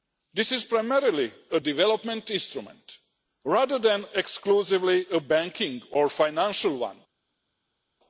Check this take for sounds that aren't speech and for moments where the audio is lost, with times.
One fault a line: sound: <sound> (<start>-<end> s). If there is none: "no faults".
no faults